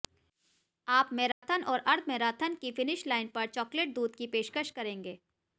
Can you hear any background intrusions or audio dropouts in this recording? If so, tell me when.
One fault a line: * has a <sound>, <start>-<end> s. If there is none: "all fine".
* has a dropout, 1.3-1.4 s